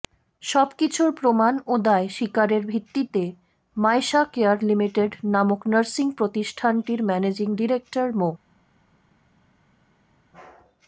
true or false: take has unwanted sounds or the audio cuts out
false